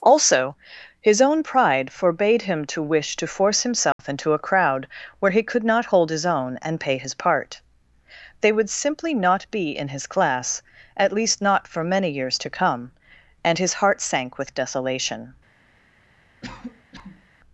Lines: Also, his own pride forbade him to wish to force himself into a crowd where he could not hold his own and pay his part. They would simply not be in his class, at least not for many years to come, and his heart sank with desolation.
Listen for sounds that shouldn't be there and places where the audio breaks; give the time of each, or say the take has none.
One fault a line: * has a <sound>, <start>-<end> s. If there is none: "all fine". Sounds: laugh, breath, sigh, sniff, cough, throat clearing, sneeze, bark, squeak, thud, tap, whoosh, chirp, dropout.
* has a dropout, 3.9-4.0 s
* has a cough, 16.4-17.3 s